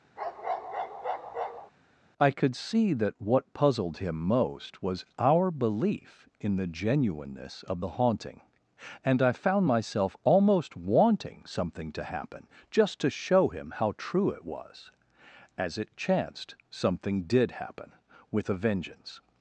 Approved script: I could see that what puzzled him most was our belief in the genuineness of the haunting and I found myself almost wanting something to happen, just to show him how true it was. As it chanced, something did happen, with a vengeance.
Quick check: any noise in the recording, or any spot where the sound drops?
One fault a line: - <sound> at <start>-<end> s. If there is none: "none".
- bark at 0.2-1.7 s